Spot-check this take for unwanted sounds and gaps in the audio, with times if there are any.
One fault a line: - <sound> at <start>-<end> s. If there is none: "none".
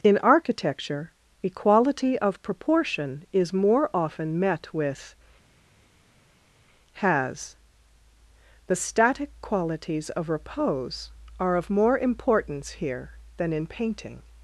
none